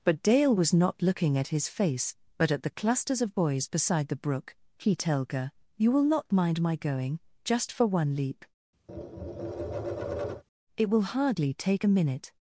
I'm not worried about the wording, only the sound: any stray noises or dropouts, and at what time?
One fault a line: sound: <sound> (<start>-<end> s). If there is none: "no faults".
sound: tap (8.9-10.4 s)